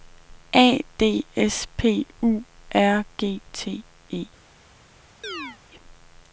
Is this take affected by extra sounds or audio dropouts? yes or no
yes